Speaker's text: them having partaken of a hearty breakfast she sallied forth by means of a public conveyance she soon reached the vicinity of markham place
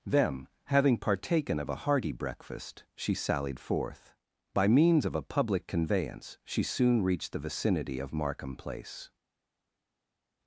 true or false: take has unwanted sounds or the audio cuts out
false